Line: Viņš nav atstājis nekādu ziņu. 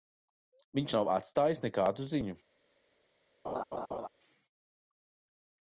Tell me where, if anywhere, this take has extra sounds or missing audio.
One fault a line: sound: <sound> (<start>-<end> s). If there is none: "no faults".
sound: laugh (3.4-4.1 s)